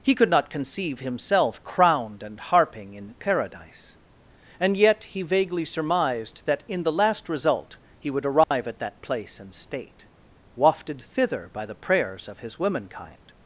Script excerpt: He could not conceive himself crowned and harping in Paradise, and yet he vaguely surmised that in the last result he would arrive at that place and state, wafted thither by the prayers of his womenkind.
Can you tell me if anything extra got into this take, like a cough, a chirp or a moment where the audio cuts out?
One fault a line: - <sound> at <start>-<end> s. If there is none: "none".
- dropout at 8.4-8.5 s